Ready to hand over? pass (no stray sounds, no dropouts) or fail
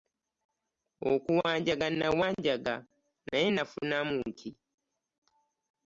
pass